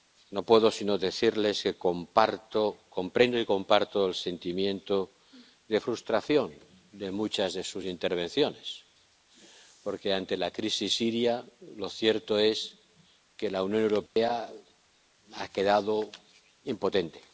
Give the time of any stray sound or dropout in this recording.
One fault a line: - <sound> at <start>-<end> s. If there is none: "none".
- dropout at 14.1-14.2 s